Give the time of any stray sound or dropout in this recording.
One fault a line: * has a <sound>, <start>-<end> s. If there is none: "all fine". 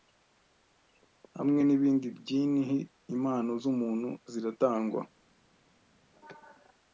all fine